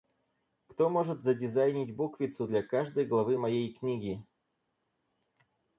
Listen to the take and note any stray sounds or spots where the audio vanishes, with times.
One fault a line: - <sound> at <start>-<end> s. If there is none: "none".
none